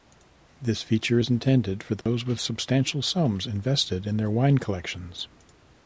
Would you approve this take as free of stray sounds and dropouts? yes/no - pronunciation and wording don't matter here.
no